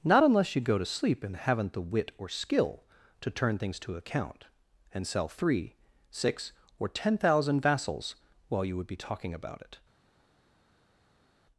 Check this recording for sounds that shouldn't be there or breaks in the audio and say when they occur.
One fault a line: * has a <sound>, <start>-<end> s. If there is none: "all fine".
all fine